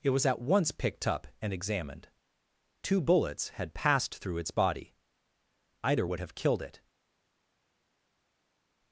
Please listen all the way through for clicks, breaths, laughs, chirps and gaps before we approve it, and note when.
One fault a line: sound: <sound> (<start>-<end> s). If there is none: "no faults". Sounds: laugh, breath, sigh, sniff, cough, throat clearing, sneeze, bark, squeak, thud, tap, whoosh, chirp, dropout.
no faults